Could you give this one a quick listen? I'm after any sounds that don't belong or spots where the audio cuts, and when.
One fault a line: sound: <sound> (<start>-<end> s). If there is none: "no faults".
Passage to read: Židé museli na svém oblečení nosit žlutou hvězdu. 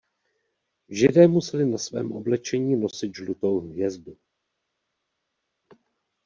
no faults